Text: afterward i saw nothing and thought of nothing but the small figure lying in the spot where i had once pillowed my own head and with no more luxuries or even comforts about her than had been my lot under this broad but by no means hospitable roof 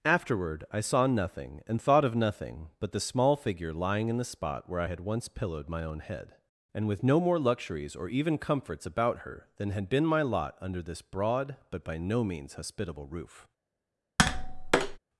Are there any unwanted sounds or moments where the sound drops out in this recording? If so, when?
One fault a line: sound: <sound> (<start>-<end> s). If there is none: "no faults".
sound: tap (14.2-15.0 s)